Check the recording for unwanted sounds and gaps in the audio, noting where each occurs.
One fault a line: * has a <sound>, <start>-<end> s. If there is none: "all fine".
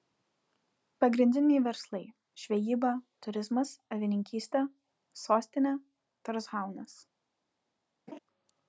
* has a laugh, 8.1-8.2 s